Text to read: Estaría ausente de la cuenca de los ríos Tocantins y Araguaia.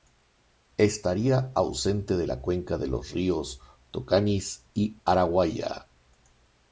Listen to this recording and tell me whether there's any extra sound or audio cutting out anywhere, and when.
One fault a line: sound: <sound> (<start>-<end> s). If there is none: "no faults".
no faults